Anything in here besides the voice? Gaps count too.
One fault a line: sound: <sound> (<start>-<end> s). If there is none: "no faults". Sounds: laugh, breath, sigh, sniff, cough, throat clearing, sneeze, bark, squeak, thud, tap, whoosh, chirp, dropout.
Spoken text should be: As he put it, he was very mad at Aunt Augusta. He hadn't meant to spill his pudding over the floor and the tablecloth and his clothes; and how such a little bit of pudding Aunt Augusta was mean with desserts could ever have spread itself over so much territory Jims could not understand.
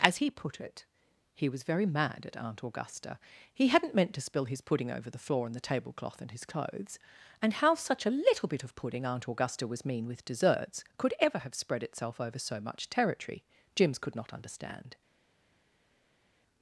no faults